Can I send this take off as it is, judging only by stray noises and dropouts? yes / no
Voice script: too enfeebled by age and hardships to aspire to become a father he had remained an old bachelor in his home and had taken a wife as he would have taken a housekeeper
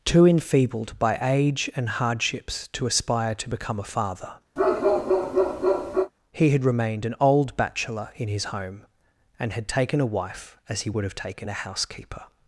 no